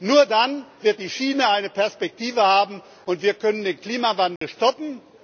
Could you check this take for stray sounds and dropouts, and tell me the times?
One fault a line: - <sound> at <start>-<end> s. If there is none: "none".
- dropout at 4.4-4.4 s